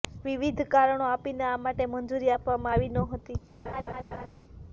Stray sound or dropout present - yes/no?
yes